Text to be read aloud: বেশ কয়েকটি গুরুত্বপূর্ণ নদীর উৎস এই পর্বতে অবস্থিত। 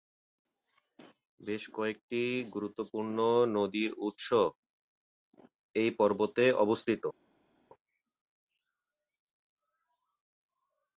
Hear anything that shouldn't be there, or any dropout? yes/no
no